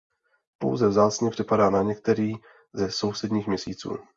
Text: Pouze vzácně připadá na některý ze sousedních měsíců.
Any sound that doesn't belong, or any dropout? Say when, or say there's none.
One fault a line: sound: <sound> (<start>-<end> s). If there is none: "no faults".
no faults